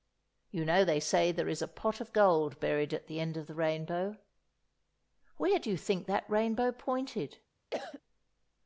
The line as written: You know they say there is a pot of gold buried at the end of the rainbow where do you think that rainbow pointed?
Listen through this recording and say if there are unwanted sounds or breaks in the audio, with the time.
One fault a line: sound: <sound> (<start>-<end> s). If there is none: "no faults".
sound: cough (7.7-8.0 s)